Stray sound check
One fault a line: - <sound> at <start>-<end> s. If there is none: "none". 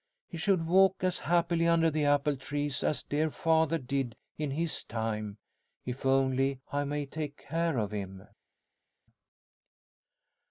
none